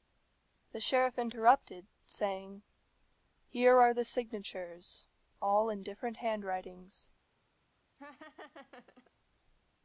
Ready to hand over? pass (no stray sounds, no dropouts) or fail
fail